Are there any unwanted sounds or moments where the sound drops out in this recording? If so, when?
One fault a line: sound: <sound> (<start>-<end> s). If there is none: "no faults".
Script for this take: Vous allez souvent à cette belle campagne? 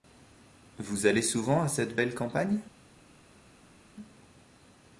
no faults